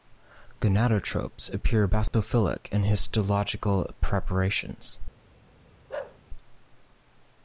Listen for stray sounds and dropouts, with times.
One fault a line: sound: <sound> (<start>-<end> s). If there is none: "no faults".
sound: dropout (2.1-2.1 s)
sound: bark (5.9-6.2 s)